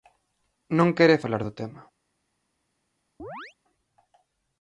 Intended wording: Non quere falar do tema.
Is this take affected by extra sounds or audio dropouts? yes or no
yes